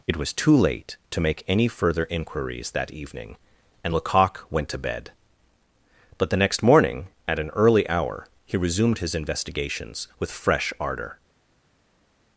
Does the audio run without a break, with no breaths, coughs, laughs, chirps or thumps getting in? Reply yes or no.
yes